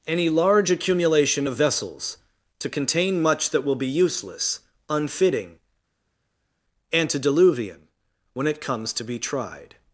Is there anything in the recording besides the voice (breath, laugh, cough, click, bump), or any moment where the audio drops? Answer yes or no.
no